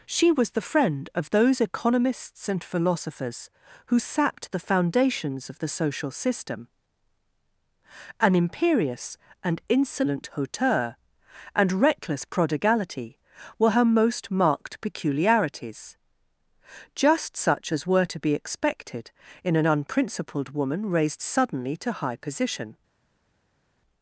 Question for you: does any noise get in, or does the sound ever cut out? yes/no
no